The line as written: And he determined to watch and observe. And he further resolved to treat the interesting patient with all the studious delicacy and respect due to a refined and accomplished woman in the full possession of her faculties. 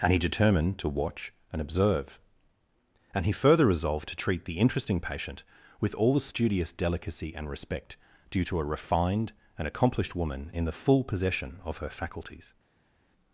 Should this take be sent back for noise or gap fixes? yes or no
no